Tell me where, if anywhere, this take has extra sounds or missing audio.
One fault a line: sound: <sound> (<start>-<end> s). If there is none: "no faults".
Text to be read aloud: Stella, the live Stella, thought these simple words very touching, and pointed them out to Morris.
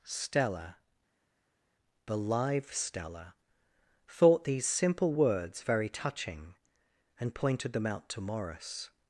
no faults